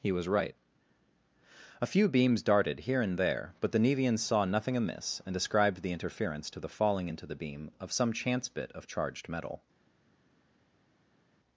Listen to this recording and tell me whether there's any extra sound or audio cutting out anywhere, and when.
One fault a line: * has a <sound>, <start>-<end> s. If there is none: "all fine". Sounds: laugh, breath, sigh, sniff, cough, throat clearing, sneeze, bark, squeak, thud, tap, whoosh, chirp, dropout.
all fine